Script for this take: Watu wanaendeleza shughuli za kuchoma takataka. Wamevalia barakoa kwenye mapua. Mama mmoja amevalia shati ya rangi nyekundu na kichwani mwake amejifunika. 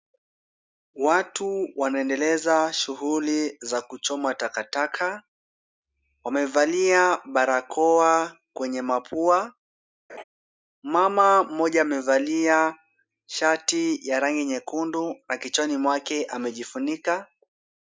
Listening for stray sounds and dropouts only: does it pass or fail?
fail